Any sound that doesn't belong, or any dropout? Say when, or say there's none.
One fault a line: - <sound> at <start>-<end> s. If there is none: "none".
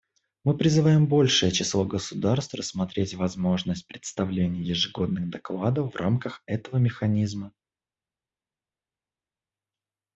none